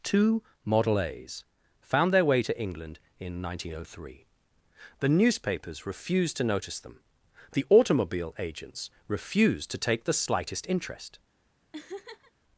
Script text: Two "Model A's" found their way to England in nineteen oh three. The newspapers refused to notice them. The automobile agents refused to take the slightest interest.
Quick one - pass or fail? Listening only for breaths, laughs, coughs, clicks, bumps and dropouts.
fail